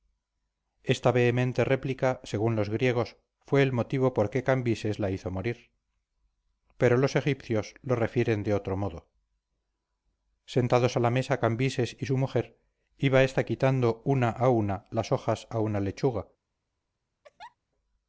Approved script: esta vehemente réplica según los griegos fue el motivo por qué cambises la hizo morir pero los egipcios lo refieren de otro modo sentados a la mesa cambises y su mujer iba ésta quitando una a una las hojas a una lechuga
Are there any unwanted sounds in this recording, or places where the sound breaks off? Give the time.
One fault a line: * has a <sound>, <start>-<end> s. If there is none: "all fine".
* has a laugh, 17.2-17.6 s